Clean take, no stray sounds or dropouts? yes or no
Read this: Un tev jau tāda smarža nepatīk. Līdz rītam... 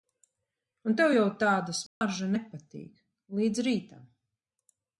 no